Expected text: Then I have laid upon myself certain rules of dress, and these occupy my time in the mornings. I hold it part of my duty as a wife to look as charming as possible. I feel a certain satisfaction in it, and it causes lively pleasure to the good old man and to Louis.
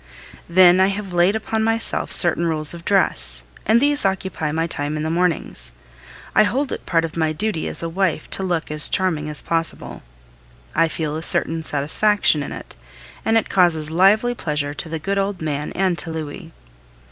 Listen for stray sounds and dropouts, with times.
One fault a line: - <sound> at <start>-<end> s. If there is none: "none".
none